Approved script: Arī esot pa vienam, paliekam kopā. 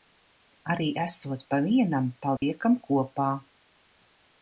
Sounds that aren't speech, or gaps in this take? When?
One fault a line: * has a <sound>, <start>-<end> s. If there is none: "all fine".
* has a dropout, 2.4-2.4 s